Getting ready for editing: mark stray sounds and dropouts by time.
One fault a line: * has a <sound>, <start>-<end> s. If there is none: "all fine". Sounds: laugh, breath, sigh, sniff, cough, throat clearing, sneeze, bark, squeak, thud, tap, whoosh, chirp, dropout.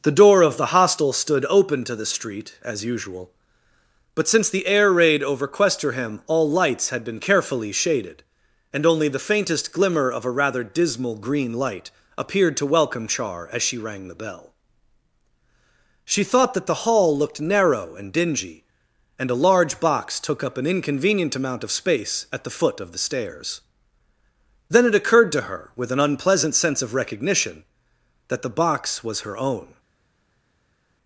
all fine